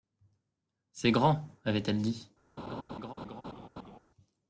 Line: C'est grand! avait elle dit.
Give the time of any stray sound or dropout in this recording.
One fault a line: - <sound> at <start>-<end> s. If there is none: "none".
- laugh at 2.6-4.0 s